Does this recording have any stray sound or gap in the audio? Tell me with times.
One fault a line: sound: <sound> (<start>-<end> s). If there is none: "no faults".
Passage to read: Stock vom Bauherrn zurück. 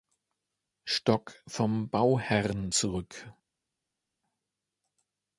no faults